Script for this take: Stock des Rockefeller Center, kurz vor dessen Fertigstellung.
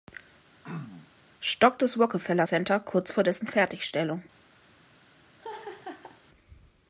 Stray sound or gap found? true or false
true